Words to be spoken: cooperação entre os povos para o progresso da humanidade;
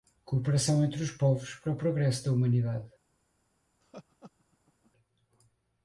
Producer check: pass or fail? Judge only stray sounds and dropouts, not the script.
fail